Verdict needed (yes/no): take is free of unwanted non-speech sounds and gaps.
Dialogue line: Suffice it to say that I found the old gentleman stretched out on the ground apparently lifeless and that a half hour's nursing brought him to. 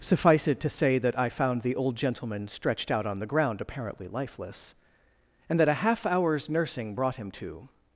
yes